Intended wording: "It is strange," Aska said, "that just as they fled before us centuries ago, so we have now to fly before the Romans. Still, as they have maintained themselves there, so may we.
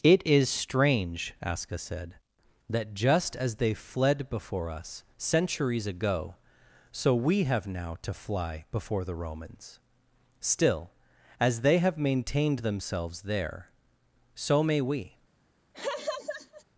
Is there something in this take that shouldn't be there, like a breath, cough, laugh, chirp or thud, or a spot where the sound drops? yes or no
yes